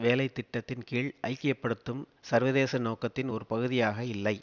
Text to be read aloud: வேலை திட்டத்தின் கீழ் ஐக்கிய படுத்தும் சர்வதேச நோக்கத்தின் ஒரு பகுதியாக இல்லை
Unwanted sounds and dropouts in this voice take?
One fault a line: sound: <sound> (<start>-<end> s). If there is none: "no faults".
no faults